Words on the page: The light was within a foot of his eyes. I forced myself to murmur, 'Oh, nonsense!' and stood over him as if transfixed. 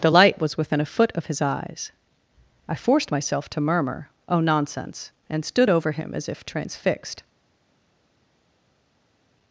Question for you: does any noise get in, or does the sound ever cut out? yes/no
no